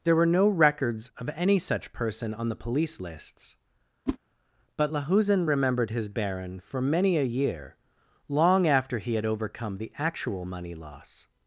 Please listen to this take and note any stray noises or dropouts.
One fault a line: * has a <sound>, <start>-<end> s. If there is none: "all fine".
* has a whoosh, 4.1-4.2 s